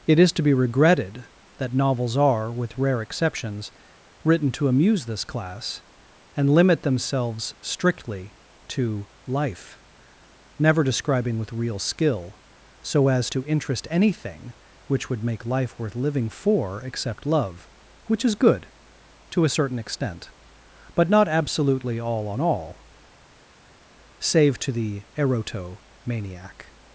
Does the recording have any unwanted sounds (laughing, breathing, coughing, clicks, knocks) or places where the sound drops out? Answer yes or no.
no